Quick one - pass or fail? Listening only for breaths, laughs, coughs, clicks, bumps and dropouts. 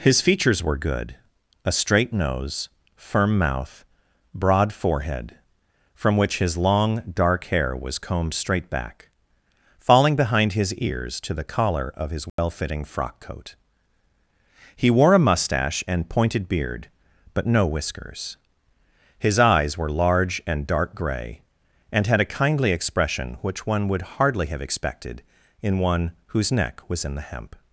fail